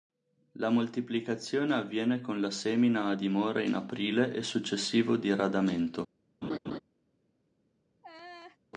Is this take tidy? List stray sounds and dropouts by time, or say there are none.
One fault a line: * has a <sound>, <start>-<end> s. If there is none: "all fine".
* has a laugh, 6.4-6.8 s
* has a laugh, 8.0-8.6 s